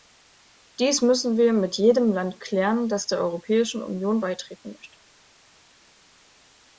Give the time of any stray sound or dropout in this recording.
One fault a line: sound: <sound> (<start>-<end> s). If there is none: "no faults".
no faults